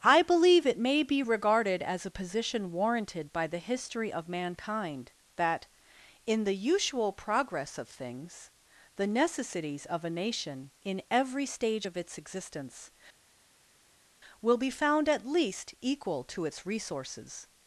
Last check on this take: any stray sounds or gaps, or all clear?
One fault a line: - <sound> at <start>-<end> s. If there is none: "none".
none